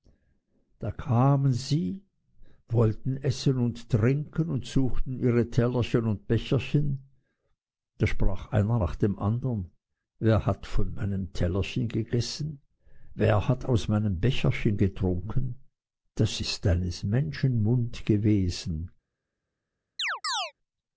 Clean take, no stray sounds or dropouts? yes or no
no